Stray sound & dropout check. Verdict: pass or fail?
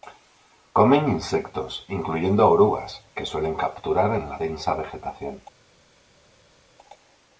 pass